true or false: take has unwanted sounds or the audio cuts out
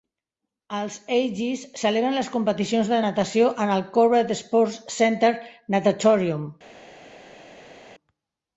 false